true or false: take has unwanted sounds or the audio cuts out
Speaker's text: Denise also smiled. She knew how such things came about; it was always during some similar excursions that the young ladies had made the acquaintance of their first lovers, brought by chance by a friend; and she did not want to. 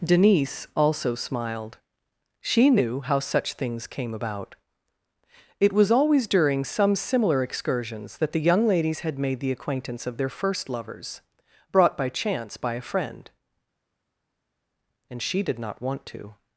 false